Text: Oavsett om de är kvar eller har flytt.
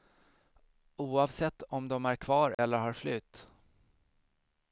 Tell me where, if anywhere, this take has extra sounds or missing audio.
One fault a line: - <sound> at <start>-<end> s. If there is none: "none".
- dropout at 2.5-2.6 s